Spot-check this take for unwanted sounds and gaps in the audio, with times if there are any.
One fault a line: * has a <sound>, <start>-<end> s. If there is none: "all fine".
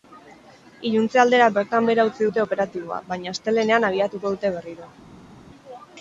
all fine